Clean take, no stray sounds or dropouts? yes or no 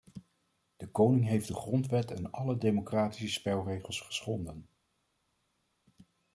yes